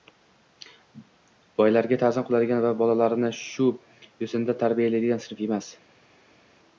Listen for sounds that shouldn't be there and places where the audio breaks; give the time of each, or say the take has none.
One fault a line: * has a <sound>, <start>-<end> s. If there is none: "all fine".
all fine